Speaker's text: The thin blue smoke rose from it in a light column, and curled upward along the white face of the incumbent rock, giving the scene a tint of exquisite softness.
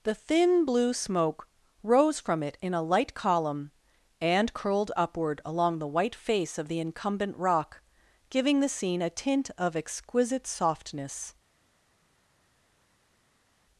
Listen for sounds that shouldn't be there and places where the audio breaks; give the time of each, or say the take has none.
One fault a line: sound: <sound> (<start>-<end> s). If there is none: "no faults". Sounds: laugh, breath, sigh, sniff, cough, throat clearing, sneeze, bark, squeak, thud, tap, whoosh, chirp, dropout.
no faults